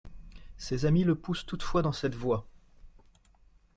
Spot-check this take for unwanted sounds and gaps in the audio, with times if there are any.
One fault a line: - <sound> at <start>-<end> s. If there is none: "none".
none